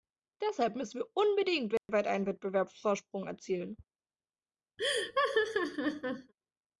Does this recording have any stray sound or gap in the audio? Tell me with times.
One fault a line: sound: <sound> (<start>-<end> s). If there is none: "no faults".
sound: dropout (1.8-1.9 s)
sound: laugh (4.8-6.3 s)